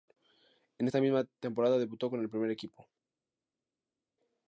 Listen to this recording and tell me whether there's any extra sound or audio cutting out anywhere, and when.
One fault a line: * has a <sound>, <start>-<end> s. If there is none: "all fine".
all fine